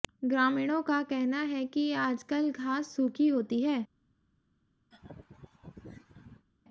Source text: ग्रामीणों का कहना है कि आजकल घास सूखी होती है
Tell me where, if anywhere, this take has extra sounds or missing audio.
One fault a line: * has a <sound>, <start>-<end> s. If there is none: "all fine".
* has a laugh, 4.9-6.5 s